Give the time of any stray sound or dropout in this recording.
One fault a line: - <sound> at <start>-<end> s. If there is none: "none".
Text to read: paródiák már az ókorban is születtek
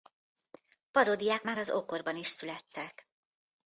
none